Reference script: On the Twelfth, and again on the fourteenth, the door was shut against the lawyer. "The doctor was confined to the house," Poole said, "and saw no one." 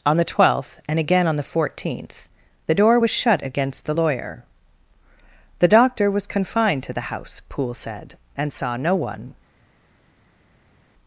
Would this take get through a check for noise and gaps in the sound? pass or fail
pass